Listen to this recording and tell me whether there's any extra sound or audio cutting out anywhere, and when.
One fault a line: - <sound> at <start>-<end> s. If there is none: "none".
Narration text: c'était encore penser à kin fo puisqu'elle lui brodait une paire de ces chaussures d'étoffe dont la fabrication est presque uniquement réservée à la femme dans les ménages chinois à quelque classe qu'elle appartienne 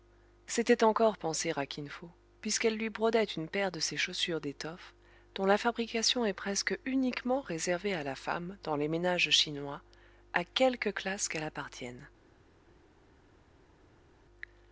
none